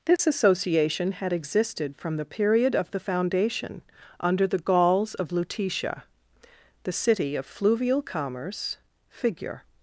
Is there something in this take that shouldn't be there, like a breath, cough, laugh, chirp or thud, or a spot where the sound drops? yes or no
yes